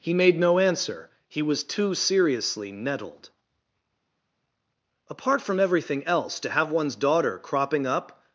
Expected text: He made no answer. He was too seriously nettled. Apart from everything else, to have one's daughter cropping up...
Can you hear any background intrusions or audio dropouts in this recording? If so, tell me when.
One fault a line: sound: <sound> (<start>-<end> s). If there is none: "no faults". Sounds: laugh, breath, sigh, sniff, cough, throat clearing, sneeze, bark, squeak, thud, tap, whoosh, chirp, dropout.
no faults